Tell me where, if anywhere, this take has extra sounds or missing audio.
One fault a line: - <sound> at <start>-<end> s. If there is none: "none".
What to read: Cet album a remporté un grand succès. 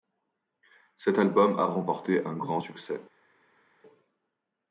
none